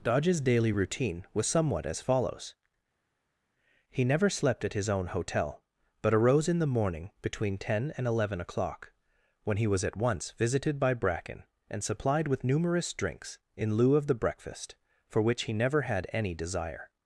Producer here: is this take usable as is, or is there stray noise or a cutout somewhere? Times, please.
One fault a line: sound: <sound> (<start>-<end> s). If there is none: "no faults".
no faults